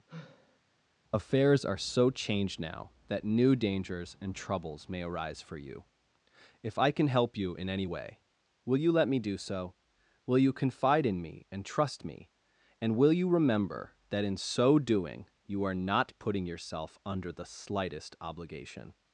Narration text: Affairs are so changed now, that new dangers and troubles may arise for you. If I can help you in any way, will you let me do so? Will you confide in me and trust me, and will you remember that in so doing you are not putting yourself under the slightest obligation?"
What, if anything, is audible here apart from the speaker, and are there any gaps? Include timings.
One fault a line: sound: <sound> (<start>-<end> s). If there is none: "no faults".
sound: sigh (0.1-0.6 s)